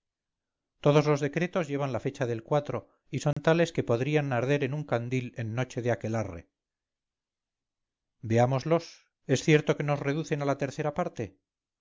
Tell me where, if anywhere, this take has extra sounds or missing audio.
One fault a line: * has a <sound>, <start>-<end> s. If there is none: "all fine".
* has a dropout, 3.3-3.4 s